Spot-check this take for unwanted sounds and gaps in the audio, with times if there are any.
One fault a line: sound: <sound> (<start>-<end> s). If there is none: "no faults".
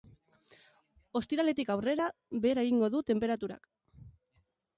no faults